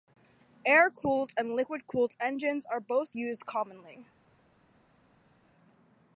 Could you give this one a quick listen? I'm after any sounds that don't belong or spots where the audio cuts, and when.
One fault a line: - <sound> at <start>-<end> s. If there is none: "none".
none